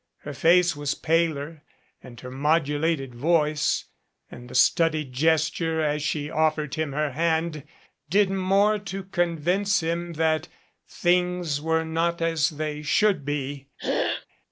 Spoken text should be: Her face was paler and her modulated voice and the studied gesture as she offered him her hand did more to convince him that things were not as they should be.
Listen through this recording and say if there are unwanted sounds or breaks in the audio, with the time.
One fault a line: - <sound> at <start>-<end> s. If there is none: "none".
- throat clearing at 13.8-14.3 s